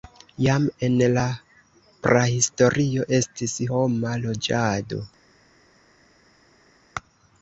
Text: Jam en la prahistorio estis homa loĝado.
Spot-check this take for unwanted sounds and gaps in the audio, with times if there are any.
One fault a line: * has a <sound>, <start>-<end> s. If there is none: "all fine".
all fine